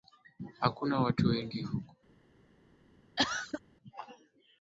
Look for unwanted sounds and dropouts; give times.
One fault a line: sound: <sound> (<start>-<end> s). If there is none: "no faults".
sound: cough (3.2-3.6 s)